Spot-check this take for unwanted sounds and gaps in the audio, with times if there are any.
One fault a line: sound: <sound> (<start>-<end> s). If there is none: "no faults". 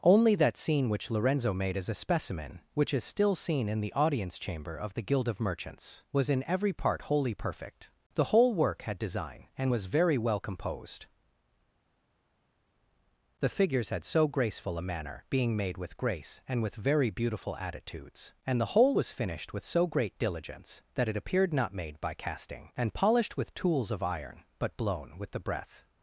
no faults